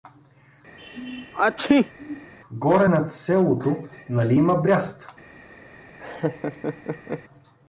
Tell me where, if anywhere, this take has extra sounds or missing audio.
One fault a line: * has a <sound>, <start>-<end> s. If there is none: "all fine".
* has a sneeze, 0.8-2.3 s
* has a laugh, 6.0-7.2 s